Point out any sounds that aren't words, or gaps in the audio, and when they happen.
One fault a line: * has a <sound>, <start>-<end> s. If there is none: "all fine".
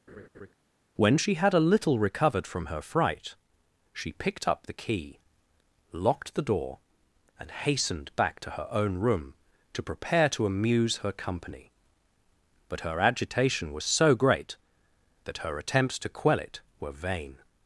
* has a laugh, 0.1-0.5 s